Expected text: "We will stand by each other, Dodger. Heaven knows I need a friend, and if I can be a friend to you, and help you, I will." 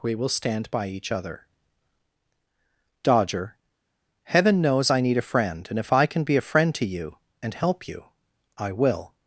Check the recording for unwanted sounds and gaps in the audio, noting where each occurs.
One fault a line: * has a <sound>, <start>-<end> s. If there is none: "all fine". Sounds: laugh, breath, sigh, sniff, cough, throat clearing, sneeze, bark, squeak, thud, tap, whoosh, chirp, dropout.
all fine